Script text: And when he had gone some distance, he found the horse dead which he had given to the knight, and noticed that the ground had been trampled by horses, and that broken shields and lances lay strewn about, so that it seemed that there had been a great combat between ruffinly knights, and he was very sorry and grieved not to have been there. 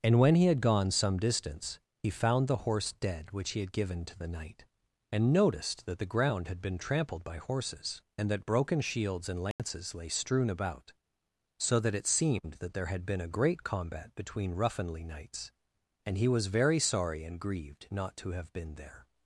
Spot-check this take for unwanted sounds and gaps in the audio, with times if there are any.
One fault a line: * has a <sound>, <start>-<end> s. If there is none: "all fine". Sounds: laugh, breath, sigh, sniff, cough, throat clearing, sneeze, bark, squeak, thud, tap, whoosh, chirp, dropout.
* has a dropout, 9.5-9.6 s